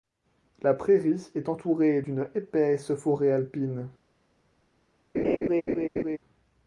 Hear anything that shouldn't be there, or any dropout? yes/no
yes